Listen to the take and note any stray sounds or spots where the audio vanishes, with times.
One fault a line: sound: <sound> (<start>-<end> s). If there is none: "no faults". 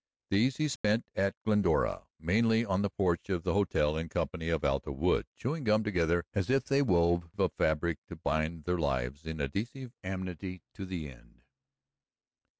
sound: dropout (0.8-0.8 s)